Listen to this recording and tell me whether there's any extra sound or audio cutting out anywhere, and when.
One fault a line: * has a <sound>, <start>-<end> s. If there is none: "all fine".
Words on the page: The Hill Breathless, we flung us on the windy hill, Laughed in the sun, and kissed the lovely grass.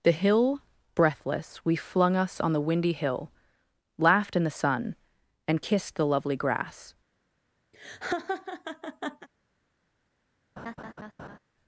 * has a laugh, 7.7-9.3 s
* has a laugh, 10.6-11.4 s